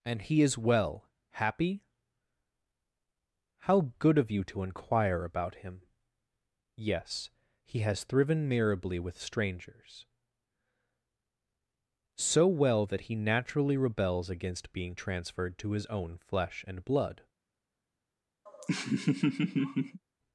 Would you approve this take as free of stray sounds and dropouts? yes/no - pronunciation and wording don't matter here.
no